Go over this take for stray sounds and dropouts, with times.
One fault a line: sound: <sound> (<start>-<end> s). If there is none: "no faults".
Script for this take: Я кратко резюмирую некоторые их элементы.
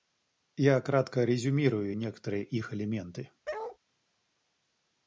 sound: bark (3.4-3.8 s)